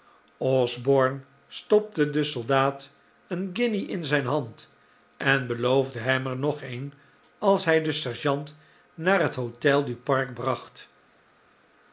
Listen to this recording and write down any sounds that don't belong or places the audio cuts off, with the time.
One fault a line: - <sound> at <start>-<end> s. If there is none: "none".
none